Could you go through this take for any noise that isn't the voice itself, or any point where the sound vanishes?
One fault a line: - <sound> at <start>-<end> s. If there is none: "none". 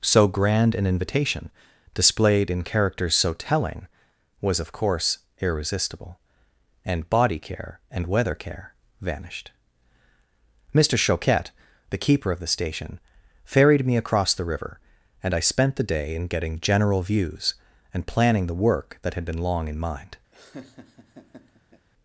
- laugh at 20.3-21.9 s